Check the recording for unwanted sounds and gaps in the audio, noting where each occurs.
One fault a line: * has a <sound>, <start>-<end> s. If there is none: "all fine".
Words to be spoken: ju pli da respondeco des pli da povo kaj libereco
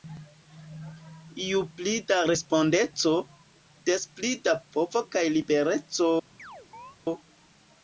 * has a chirp, 6.4-7.0 s